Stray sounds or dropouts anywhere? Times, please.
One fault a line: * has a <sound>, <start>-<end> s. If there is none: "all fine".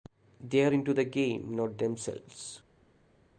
all fine